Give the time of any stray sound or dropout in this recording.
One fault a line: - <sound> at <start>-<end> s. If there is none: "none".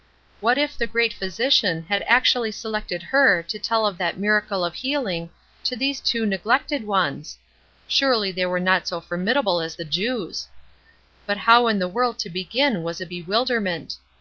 none